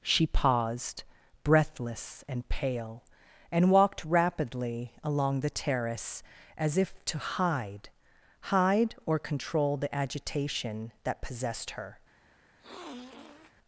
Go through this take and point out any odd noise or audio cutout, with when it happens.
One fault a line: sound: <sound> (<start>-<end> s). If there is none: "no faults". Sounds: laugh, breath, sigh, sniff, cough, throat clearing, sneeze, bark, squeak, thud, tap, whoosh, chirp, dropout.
sound: sniff (12.6-13.5 s)